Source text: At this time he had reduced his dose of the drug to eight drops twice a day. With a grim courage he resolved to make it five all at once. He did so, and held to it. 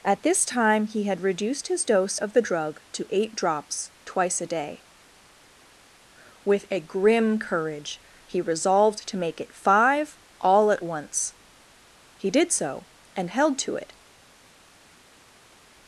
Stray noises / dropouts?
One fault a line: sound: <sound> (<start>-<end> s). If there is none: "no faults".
no faults